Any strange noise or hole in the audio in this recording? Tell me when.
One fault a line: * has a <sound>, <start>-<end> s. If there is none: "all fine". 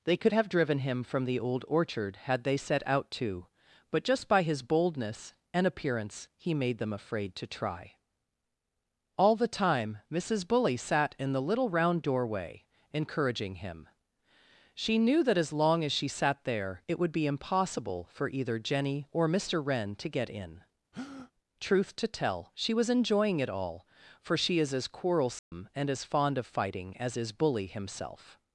* has a breath, 20.9-21.3 s
* has a dropout, 25.4-25.5 s